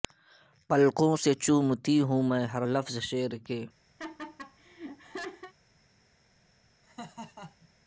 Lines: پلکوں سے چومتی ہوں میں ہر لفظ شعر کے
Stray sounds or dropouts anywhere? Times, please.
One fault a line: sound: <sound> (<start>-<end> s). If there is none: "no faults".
sound: laugh (4.0-5.5 s)
sound: laugh (6.8-7.7 s)